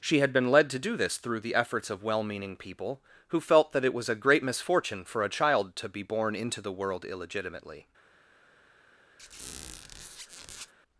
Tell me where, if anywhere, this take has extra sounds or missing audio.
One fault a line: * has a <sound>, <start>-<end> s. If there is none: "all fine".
* has a squeak, 9.2-10.7 s